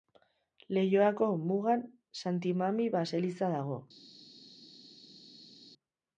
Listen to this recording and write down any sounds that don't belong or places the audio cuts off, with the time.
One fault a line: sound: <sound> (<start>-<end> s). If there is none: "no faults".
no faults